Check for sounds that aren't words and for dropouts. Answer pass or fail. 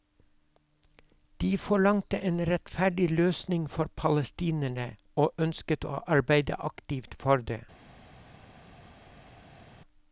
pass